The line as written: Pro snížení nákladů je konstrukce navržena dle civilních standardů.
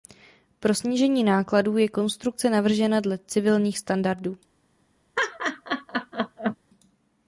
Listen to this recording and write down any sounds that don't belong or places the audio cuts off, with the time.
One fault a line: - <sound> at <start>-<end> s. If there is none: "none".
- laugh at 5.2-6.6 s